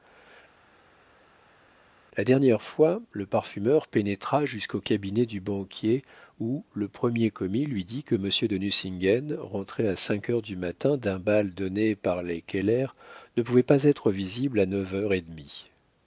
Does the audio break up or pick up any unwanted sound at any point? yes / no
no